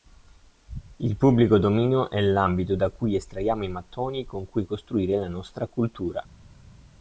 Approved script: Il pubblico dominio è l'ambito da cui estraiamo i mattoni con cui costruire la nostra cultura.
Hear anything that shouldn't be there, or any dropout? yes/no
no